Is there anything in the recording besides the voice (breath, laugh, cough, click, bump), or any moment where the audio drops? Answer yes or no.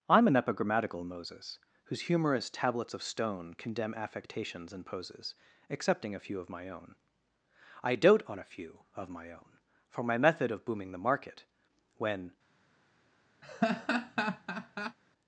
yes